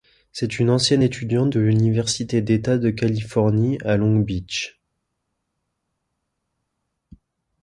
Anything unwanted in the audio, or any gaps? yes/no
no